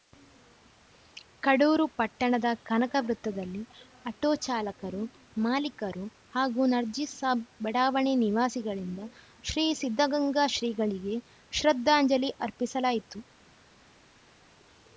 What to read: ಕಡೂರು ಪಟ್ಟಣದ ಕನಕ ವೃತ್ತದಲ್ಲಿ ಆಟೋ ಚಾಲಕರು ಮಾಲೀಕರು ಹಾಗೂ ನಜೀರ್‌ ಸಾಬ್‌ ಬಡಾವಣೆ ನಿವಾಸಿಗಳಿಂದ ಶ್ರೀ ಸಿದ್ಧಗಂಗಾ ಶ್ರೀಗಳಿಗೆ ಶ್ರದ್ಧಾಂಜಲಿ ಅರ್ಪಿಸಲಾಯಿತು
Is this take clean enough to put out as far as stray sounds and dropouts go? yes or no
yes